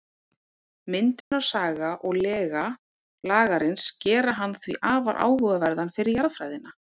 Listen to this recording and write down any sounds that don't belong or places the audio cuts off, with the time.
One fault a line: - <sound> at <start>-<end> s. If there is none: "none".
- dropout at 1.2-1.3 s